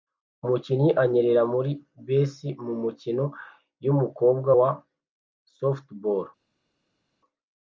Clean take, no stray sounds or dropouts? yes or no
yes